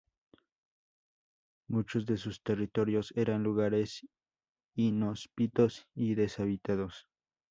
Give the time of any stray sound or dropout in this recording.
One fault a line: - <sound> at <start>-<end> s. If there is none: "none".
none